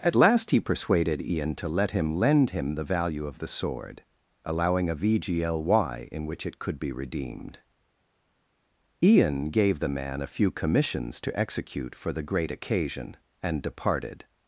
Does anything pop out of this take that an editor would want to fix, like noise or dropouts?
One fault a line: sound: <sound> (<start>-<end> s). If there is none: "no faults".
no faults